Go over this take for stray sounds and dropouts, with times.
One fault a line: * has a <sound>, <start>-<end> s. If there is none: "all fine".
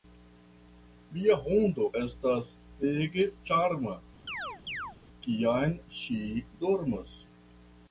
* has a chirp, 4.3-5.0 s